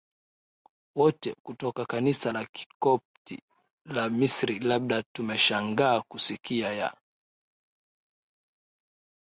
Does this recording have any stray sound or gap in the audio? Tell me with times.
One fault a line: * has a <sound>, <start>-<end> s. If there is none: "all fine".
all fine